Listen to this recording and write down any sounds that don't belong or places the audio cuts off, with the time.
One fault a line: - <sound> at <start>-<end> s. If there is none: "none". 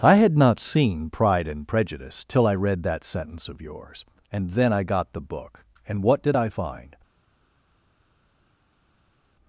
none